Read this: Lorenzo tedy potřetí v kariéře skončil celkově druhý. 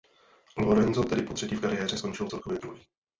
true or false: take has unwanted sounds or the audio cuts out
false